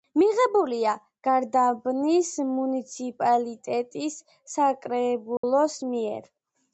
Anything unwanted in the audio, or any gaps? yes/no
yes